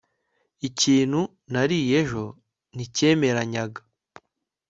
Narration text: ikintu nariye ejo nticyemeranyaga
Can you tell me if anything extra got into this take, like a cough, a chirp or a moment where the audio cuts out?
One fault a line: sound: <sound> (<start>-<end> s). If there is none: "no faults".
no faults